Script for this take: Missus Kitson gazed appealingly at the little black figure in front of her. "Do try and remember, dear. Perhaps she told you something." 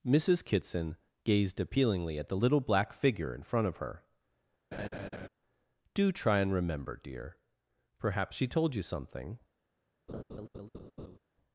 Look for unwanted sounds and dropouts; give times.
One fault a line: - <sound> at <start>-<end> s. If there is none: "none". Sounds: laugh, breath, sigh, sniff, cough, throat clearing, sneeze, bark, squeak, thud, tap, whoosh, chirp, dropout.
- laugh at 4.7-5.3 s
- laugh at 10.1-11.2 s